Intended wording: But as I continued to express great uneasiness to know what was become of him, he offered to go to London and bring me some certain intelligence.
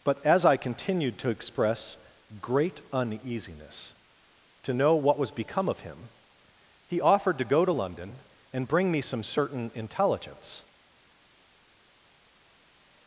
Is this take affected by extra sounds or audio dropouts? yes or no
no